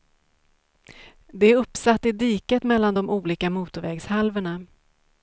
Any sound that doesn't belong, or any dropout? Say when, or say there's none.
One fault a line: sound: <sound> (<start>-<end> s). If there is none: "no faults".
no faults